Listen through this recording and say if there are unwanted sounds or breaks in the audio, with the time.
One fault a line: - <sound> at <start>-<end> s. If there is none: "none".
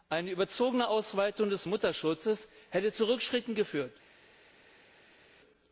none